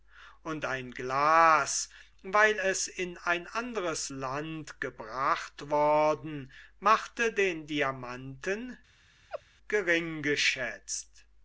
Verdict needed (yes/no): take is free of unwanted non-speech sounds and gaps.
no